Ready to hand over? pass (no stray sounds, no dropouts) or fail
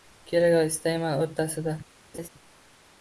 fail